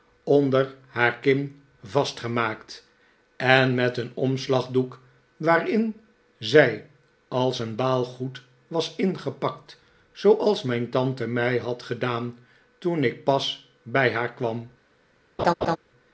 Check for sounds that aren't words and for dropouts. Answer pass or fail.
fail